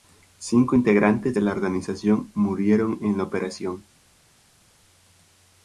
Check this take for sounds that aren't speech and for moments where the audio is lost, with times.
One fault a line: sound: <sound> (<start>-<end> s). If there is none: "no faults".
no faults